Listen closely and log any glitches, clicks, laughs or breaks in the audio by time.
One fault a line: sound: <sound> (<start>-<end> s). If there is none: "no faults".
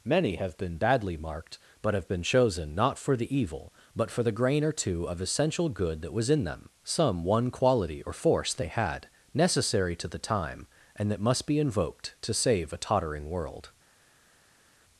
no faults